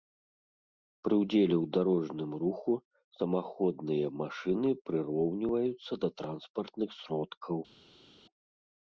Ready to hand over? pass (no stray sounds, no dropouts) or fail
pass